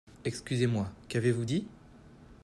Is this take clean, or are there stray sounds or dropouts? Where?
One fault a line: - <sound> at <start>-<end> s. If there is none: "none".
none